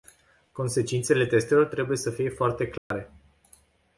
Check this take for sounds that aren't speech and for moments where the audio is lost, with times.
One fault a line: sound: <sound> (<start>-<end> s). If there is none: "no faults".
sound: dropout (2.8-2.9 s)